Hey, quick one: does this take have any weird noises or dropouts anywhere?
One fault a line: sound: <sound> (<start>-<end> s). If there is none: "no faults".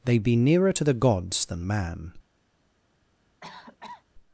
sound: cough (3.4-4.0 s)